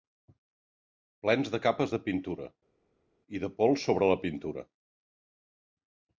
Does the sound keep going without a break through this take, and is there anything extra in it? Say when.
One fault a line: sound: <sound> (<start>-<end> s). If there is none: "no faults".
no faults